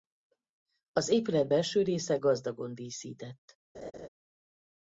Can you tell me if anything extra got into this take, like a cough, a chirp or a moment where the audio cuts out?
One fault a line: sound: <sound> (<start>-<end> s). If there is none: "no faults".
sound: laugh (3.7-4.1 s)